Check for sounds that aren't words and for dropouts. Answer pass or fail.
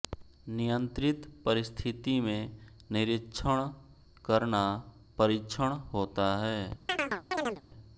fail